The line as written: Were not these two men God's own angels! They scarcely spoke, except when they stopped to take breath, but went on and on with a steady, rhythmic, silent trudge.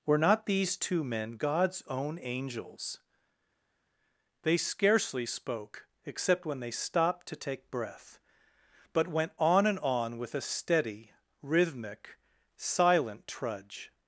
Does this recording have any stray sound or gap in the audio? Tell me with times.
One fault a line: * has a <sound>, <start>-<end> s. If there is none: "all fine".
all fine